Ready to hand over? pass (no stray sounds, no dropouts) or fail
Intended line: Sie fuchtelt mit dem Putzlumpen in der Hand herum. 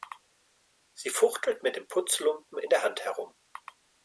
pass